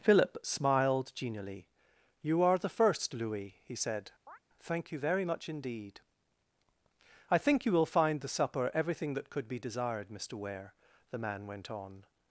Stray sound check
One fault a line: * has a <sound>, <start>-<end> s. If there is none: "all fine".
* has a chirp, 4.3-4.4 s